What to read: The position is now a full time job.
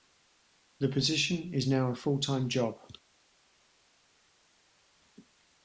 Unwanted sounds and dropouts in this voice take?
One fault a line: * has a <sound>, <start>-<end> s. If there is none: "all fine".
all fine